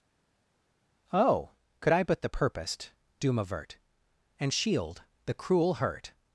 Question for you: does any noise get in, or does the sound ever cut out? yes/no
no